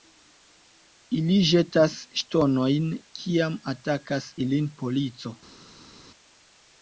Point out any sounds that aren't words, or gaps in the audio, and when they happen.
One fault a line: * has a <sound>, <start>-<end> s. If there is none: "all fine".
all fine